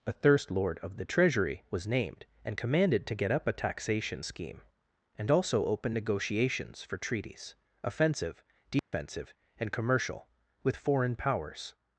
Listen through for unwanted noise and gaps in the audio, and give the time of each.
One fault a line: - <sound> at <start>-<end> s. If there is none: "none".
- dropout at 8.8-8.9 s